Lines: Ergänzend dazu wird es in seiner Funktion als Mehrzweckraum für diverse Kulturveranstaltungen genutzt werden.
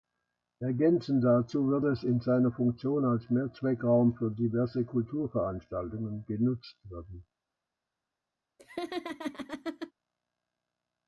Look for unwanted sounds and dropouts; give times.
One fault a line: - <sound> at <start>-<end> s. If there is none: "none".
- laugh at 8.6-9.9 s